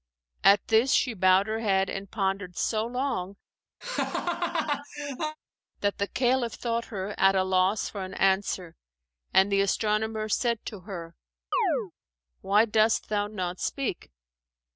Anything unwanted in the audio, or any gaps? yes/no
yes